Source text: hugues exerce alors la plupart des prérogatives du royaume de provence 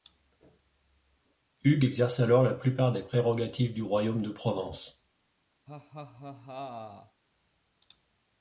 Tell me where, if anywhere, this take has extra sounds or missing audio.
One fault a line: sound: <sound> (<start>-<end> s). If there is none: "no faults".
sound: laugh (5.7-7.2 s)